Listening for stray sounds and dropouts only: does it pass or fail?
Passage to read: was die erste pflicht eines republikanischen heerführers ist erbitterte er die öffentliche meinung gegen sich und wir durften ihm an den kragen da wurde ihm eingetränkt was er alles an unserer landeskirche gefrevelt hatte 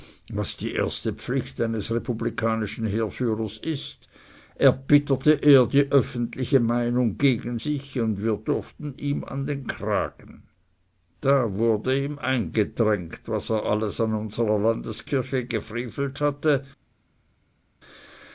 pass